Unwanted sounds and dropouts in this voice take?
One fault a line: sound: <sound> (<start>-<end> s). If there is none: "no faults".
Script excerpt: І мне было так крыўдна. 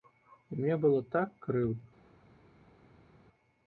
no faults